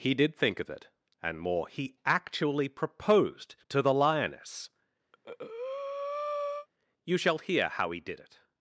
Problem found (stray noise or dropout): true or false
true